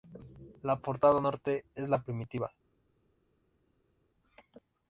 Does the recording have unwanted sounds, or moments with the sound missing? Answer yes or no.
no